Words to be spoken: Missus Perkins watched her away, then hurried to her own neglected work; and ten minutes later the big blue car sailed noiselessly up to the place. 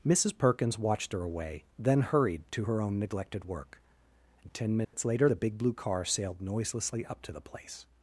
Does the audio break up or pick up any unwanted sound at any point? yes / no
yes